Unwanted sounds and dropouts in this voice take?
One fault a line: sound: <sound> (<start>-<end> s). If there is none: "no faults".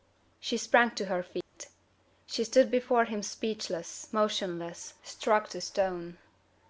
sound: dropout (1.4-1.5 s)